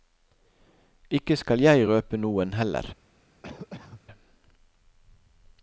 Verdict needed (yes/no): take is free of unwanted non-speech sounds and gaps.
no